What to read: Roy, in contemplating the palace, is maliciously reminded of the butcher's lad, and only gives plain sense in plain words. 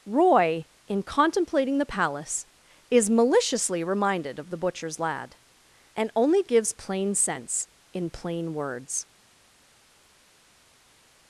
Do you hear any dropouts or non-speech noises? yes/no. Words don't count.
no